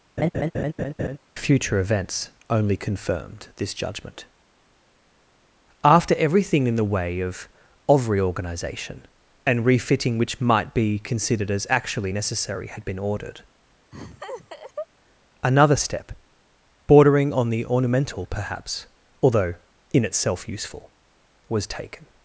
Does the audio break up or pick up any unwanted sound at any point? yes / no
yes